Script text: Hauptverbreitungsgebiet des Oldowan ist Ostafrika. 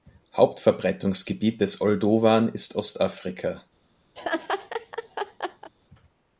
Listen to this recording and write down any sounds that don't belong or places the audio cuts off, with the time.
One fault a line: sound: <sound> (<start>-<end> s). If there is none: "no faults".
sound: laugh (4.2-5.7 s)